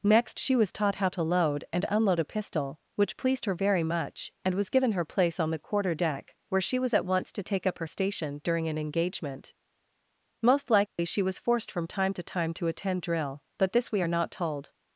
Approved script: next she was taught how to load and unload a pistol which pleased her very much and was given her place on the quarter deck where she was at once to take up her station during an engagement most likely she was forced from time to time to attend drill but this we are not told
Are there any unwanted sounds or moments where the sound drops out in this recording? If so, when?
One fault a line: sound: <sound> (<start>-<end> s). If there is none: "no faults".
sound: dropout (10.9-11.0 s)